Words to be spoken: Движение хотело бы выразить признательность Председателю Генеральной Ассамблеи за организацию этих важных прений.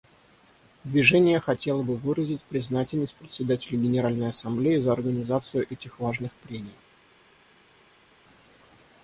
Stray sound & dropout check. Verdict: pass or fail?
pass